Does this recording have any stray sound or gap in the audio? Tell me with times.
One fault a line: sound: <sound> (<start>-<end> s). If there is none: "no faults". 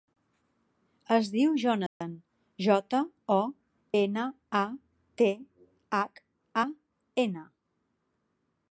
sound: dropout (1.9-2.0 s)